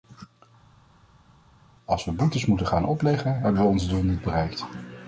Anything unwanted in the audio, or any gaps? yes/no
no